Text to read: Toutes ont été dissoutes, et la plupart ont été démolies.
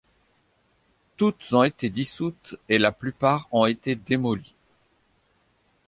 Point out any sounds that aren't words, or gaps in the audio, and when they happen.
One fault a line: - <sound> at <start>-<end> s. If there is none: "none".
none